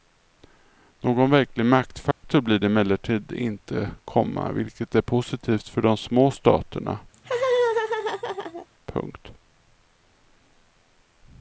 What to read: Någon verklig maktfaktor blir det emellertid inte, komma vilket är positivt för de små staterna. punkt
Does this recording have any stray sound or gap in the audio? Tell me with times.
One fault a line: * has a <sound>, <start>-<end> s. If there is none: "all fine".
* has a dropout, 2.1-2.2 s
* has a laugh, 7.1-8.7 s